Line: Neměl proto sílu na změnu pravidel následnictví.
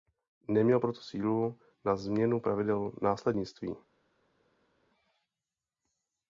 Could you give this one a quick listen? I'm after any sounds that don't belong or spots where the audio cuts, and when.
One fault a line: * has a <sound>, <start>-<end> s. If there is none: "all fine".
all fine